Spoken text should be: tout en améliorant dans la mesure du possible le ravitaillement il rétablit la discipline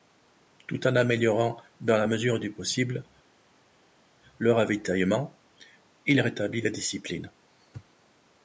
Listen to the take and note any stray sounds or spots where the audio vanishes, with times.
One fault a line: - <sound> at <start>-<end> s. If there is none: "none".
none